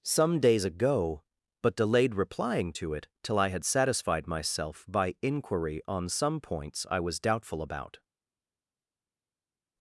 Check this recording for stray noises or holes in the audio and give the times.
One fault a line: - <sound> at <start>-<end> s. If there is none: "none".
none